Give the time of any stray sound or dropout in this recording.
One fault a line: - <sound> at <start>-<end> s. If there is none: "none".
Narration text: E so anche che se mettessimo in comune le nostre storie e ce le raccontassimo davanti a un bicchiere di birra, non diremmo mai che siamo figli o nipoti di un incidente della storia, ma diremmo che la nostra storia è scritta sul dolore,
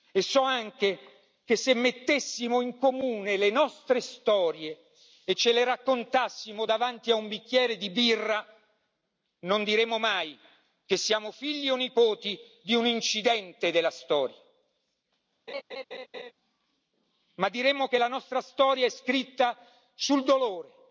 - laugh at 15.5-16.3 s